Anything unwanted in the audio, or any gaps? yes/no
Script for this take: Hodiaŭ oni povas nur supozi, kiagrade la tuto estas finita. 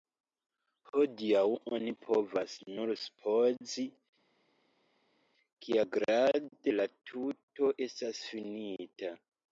no